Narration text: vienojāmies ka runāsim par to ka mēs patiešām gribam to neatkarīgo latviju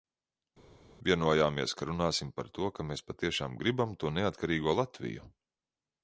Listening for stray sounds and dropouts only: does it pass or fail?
pass